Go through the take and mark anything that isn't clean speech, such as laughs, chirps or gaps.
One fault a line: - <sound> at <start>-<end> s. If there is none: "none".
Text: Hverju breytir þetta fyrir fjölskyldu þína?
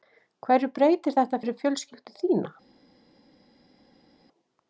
none